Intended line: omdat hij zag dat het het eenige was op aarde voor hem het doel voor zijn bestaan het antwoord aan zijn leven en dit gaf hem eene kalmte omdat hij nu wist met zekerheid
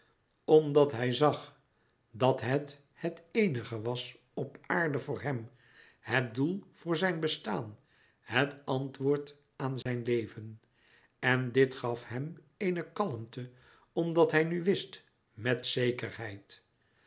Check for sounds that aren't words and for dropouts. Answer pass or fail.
fail